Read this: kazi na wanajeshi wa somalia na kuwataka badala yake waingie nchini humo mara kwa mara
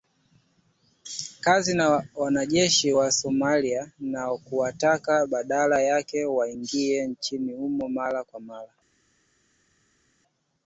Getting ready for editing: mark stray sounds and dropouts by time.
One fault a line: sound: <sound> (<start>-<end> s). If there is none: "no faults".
no faults